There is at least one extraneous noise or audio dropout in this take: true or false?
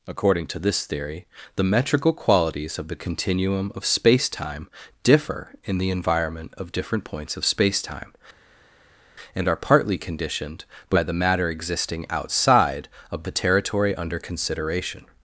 false